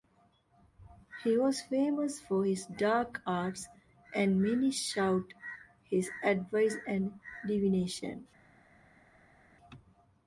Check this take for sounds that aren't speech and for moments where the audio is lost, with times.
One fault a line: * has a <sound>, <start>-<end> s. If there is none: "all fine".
all fine